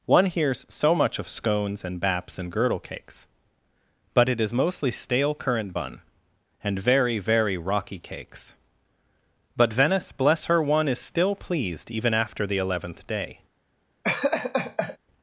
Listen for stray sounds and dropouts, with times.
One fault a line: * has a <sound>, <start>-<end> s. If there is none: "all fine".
* has a laugh, 14.0-15.0 s